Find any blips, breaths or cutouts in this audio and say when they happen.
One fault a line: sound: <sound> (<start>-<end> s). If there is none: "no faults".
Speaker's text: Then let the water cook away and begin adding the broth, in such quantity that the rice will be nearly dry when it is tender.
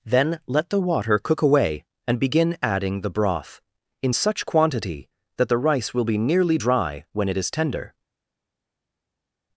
no faults